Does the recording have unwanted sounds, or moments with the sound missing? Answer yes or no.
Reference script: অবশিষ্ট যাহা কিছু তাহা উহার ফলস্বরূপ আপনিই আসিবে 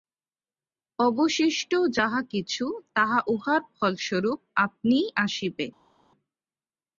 no